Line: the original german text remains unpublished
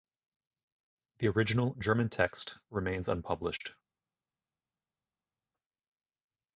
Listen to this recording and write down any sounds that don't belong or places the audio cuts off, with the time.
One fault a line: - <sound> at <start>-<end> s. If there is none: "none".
none